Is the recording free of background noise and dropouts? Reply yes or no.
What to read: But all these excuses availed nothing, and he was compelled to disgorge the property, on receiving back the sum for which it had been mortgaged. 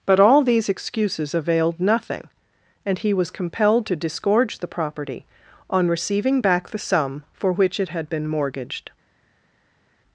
yes